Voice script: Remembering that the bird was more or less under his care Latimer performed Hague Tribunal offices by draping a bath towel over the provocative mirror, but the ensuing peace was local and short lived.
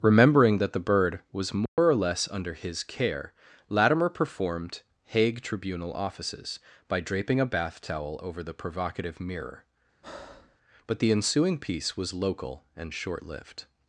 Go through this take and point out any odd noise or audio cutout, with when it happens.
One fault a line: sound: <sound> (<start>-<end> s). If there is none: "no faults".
sound: dropout (1.7-1.8 s)
sound: breath (10.0-10.6 s)